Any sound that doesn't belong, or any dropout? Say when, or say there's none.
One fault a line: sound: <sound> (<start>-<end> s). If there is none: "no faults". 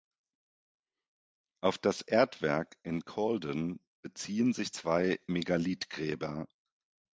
no faults